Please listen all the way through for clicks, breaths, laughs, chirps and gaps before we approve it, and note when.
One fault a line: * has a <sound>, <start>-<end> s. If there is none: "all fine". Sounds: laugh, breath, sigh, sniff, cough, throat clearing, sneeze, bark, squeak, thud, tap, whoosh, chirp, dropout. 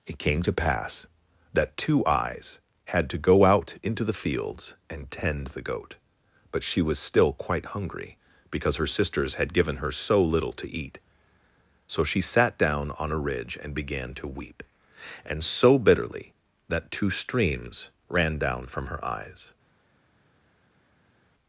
all fine